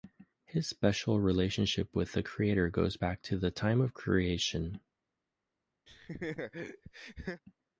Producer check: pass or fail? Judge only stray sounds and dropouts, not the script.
fail